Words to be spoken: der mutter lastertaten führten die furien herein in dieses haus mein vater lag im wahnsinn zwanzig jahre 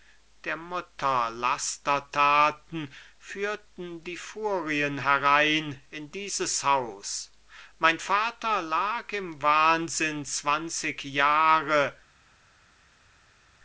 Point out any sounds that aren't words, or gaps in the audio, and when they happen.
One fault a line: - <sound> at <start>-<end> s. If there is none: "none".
none